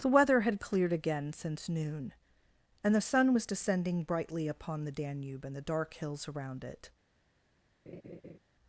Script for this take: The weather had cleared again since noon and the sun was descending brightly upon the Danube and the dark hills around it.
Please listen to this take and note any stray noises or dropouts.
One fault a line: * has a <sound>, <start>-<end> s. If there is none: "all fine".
* has a laugh, 7.9-8.4 s